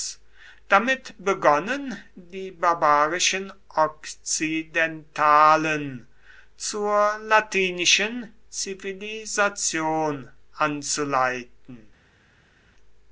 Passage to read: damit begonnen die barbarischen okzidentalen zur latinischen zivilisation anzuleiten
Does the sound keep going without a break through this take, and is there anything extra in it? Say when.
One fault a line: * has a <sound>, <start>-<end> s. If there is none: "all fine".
all fine